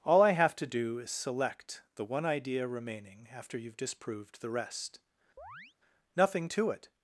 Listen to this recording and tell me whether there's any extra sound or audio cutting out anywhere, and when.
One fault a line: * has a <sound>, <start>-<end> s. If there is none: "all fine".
* has a chirp, 5.4-5.7 s